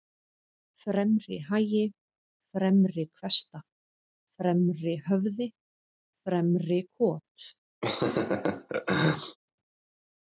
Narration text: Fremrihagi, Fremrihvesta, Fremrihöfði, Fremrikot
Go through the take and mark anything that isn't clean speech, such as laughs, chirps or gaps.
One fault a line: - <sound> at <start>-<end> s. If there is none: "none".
- laugh at 7.8-9.4 s